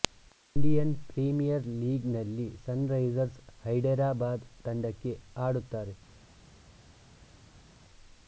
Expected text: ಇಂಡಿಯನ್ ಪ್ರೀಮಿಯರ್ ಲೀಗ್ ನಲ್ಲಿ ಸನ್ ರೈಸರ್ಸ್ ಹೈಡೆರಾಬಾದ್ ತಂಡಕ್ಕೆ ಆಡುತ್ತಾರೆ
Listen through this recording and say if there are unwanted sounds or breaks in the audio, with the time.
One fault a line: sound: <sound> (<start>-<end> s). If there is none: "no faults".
no faults